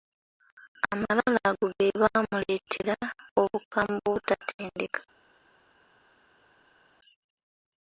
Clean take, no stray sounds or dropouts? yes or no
yes